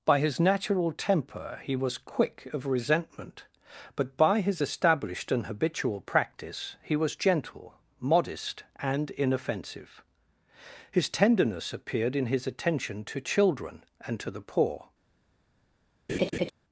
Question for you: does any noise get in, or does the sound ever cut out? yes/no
yes